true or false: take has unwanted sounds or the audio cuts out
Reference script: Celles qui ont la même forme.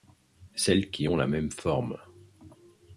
false